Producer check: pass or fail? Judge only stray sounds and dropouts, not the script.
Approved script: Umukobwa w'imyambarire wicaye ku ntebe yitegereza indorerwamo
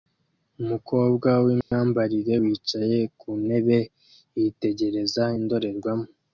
fail